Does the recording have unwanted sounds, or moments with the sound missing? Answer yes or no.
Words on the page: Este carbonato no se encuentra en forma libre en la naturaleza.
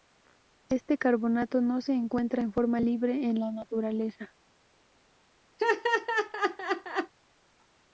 yes